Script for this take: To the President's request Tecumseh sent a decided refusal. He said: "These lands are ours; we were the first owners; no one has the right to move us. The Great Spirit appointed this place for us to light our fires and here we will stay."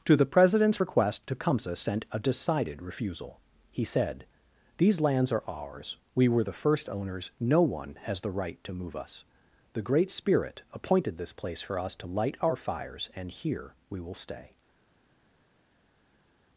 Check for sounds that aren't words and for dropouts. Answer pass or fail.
pass